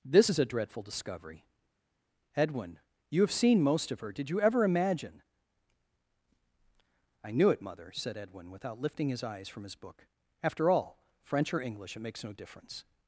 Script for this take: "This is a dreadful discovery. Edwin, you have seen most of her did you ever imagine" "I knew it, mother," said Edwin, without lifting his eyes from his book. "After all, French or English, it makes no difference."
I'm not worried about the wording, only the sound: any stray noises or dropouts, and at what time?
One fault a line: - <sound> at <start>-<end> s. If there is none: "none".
none